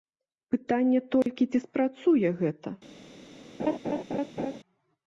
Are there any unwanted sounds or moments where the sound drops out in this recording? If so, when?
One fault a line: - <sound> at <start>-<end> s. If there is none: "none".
- dropout at 1.2-1.3 s
- laugh at 3.6-4.6 s